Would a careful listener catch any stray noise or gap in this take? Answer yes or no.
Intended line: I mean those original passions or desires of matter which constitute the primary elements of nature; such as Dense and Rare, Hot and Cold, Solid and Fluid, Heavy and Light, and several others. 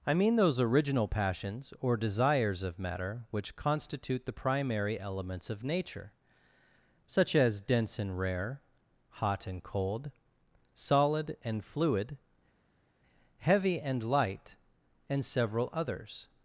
no